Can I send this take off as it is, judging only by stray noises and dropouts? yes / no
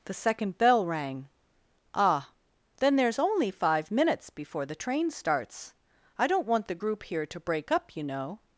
yes